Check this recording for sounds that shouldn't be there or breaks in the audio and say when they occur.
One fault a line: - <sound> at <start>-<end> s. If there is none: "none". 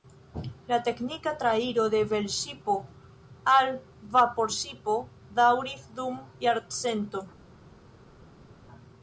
none